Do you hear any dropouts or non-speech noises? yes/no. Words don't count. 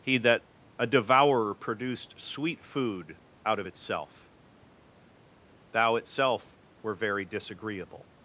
no